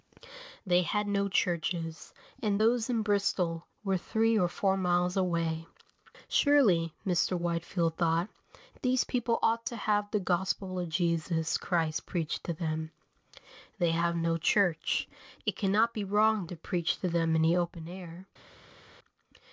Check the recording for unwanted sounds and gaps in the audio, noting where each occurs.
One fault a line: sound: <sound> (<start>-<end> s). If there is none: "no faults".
no faults